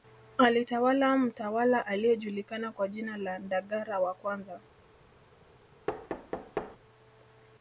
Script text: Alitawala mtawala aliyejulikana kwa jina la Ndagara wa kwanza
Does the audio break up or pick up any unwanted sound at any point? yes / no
yes